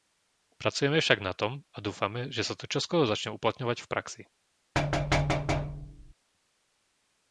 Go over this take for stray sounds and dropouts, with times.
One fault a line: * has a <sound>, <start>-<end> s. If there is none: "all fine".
* has a thud, 4.7-6.1 s